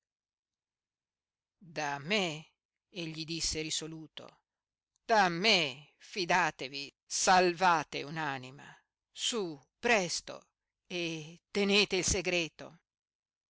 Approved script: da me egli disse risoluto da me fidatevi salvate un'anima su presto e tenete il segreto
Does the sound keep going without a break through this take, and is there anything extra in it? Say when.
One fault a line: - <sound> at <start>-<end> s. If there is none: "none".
none